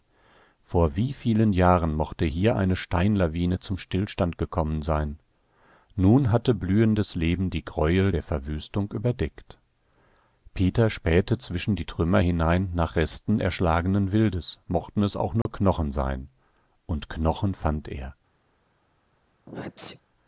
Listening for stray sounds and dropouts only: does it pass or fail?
fail